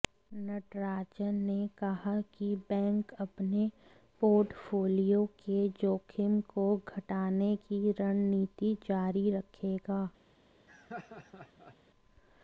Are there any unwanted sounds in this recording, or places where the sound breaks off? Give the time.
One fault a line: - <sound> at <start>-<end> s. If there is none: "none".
- laugh at 10.7-11.8 s